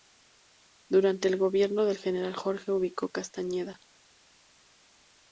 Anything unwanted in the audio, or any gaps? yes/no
no